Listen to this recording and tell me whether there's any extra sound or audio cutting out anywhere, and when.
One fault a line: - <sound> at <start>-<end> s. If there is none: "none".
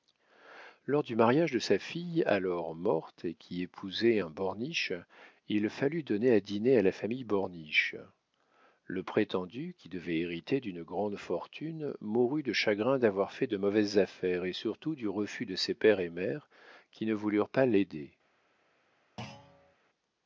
- thud at 19.2-19.7 s